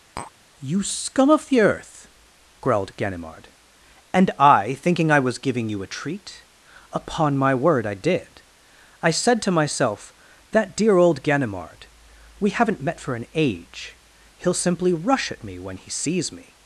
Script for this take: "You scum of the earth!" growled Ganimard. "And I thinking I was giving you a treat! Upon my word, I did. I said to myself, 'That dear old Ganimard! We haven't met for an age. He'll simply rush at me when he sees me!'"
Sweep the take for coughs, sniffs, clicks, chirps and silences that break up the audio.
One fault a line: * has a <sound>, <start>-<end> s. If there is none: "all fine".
* has a tap, 0.2-0.3 s